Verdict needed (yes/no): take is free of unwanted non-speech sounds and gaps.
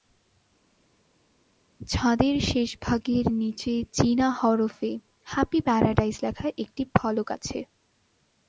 yes